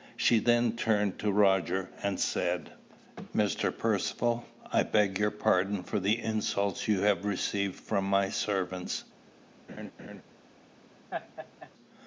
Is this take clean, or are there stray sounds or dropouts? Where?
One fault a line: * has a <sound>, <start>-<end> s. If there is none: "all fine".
* has a laugh, 9.7-10.2 s
* has a laugh, 11.1-11.7 s